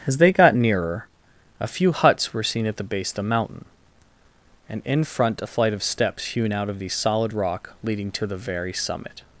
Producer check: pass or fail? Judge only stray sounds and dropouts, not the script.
pass